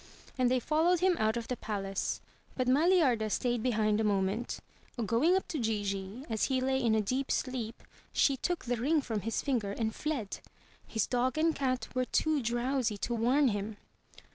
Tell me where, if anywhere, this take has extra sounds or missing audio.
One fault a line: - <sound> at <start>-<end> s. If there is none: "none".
none